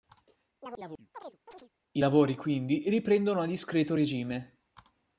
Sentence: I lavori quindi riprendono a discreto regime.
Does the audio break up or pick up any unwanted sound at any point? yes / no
yes